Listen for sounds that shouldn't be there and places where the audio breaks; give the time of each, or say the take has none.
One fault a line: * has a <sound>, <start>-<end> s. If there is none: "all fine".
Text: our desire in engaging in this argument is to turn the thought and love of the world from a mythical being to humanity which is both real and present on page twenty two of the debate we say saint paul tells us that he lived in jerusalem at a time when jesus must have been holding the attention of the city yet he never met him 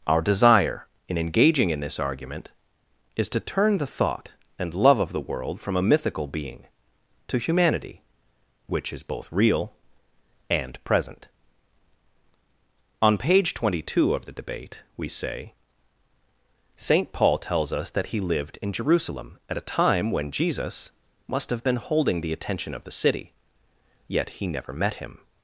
all fine